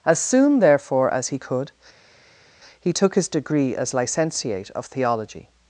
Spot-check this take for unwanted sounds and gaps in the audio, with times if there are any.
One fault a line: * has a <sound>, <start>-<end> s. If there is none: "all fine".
all fine